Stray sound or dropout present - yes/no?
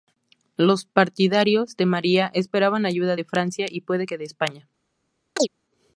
yes